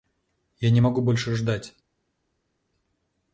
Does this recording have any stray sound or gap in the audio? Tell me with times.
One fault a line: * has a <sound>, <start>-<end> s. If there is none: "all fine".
all fine